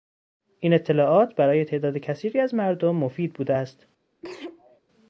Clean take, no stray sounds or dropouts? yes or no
no